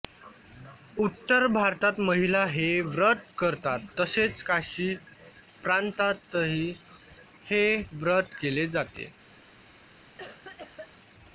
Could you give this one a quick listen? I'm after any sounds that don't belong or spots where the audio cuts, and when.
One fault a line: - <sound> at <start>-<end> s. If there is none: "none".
- cough at 10.2-10.9 s